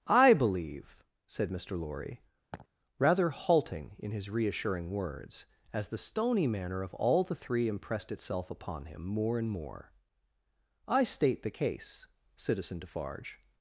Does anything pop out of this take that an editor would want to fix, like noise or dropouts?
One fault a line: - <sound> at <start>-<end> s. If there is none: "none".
- laugh at 2.5-2.7 s